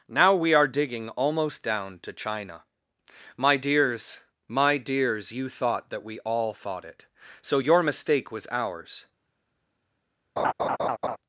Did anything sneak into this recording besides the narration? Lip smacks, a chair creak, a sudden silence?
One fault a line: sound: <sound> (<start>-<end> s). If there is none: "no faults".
sound: laugh (10.4-11.2 s)